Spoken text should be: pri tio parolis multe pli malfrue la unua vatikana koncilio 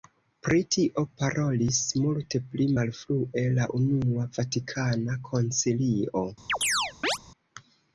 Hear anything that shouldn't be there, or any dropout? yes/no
yes